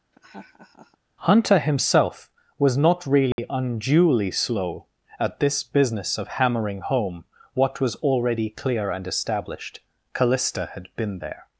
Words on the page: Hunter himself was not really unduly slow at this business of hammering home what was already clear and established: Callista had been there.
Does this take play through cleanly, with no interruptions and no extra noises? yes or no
no